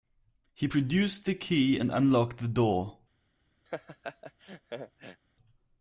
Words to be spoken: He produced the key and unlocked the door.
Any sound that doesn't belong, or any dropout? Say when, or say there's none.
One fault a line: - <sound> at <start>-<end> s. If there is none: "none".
- laugh at 3.7-5.2 s